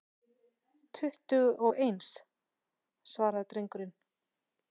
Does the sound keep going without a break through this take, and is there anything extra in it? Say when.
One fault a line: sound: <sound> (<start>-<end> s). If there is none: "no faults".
no faults